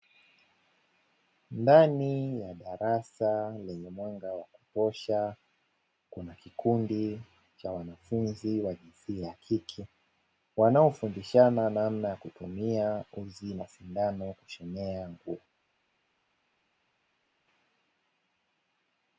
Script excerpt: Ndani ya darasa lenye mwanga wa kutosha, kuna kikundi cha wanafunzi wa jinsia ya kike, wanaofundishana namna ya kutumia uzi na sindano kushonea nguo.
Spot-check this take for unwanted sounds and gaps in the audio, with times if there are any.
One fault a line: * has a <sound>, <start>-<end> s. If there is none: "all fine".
all fine